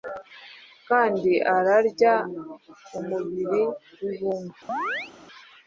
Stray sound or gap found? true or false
true